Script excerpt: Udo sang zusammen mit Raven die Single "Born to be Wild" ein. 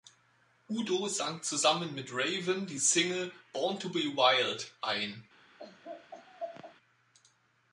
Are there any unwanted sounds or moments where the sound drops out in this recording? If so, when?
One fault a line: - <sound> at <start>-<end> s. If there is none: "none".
- laugh at 5.6-6.7 s